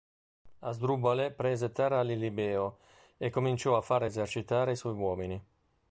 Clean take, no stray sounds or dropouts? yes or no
yes